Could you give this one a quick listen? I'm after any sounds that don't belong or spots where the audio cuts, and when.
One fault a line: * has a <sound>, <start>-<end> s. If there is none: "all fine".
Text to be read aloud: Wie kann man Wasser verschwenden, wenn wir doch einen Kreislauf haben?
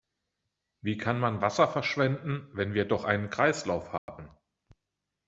* has a dropout, 4.0-4.1 s